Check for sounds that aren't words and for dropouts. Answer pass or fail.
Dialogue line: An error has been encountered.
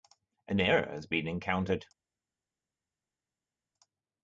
pass